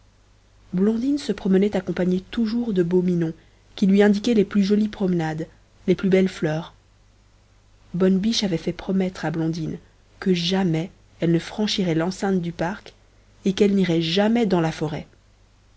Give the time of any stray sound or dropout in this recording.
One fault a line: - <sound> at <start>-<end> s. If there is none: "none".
none